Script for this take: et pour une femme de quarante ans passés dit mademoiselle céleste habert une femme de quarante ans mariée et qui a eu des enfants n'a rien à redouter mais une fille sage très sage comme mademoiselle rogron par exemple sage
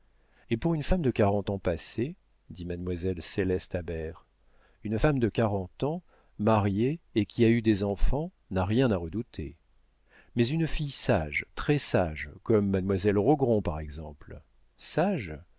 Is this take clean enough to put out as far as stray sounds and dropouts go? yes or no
yes